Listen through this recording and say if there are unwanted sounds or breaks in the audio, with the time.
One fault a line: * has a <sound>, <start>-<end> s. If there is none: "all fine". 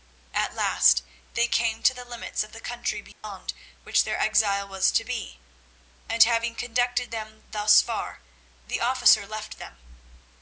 * has a dropout, 3.1-3.2 s